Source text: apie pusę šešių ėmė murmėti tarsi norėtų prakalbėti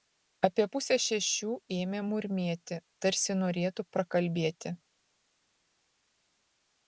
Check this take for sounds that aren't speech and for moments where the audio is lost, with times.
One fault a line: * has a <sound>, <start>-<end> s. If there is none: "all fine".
all fine